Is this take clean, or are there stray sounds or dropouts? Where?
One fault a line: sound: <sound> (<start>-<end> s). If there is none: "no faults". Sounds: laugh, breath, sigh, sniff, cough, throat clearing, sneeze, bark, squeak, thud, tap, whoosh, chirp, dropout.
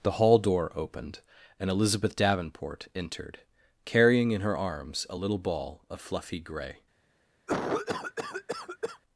sound: cough (7.5-9.0 s)